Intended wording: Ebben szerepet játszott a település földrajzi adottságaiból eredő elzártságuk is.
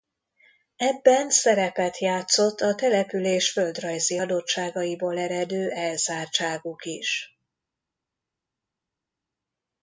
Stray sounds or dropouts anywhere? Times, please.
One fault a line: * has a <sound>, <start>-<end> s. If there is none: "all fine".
all fine